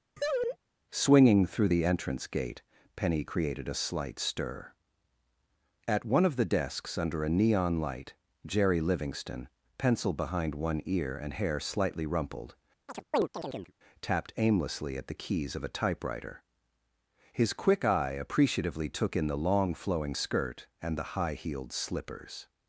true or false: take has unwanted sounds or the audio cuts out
true